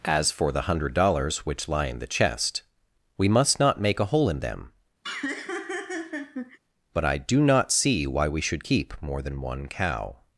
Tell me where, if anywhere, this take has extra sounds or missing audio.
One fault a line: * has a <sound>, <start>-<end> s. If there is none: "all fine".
* has a laugh, 5.0-6.6 s